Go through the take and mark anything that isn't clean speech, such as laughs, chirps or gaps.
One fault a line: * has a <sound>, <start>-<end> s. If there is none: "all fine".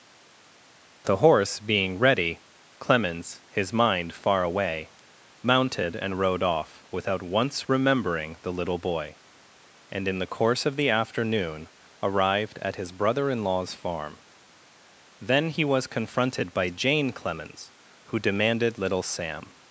all fine